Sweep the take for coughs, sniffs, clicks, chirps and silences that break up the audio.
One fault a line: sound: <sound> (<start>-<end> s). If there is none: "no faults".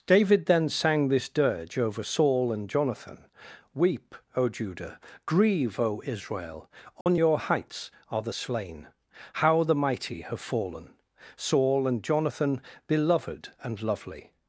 sound: dropout (7.0-7.1 s)